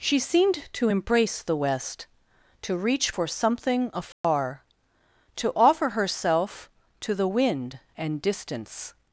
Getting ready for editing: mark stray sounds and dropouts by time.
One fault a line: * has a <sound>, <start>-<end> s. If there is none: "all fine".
* has a dropout, 4.1-4.2 s